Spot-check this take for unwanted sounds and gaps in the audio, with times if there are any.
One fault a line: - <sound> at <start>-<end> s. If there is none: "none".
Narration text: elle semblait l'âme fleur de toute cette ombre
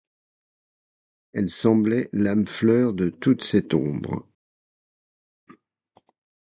none